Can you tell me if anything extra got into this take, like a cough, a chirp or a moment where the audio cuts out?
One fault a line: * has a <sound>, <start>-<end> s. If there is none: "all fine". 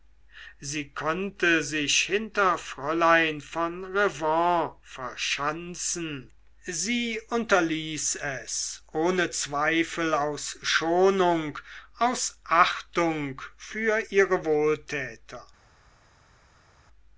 all fine